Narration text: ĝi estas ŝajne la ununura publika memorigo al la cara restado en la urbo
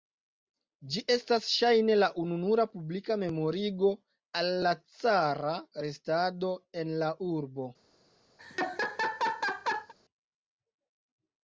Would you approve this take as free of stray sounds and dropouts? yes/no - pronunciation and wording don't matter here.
no